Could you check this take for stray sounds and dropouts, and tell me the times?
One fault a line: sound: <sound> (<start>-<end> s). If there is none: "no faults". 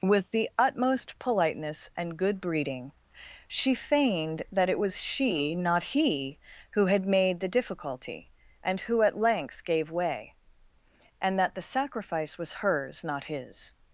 no faults